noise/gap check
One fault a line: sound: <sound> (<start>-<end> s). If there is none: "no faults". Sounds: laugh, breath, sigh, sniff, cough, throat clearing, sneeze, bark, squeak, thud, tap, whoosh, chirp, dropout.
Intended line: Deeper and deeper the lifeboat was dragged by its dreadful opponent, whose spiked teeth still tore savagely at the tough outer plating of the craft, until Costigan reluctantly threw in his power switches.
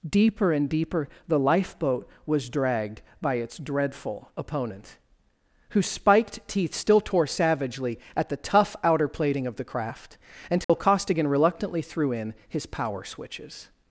sound: dropout (10.6-10.7 s)